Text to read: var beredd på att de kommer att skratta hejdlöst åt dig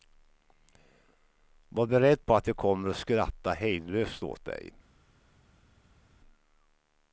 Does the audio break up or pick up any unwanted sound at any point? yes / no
no